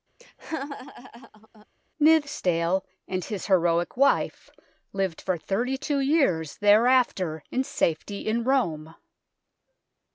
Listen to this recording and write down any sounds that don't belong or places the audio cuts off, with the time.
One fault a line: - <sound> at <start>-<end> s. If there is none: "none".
- laugh at 0.2-1.7 s